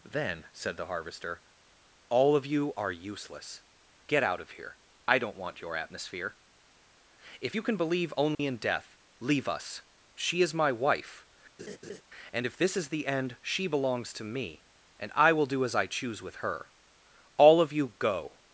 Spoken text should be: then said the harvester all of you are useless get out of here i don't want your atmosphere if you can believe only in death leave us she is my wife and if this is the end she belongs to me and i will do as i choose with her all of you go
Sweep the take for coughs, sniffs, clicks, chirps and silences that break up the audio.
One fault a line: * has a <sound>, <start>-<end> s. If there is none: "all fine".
* has a dropout, 8.3-8.4 s
* has a laugh, 11.6-12.0 s